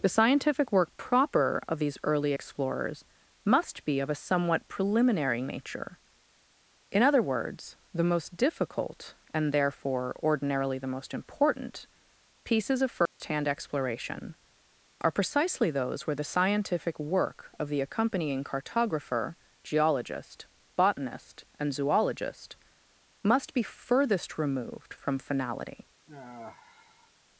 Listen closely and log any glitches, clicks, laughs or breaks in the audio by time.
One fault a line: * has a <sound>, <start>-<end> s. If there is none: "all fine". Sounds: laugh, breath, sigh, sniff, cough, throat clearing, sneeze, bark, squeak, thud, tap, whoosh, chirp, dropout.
* has a dropout, 13.1-13.2 s
* has a sigh, 26.1-27.1 s